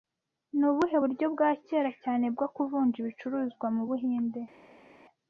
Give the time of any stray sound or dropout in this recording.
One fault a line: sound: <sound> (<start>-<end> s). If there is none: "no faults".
no faults